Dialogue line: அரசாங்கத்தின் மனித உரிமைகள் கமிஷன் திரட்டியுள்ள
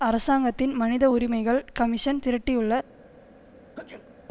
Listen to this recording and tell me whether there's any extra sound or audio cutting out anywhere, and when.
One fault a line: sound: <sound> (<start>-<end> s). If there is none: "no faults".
sound: sneeze (3.8-4.1 s)